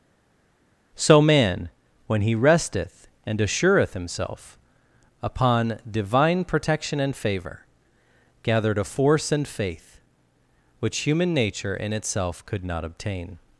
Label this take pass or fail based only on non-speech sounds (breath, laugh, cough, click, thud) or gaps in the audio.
pass